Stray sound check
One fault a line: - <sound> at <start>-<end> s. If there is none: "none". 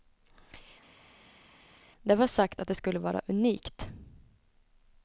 none